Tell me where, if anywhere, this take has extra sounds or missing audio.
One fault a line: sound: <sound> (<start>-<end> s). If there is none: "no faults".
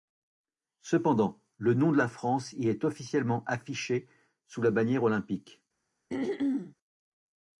sound: throat clearing (6.1-6.8 s)